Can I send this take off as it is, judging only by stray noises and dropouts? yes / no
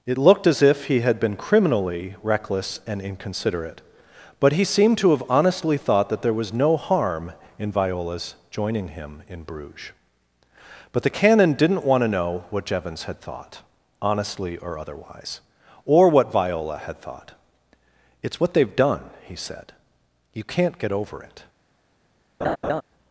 no